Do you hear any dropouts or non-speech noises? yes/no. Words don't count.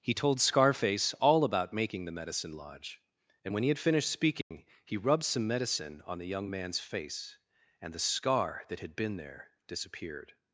yes